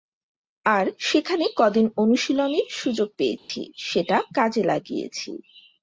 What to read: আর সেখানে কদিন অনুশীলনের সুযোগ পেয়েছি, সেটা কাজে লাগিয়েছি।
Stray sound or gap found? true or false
true